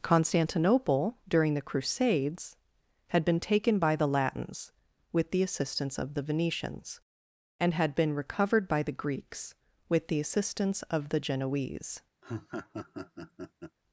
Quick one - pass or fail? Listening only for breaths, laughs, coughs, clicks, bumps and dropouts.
fail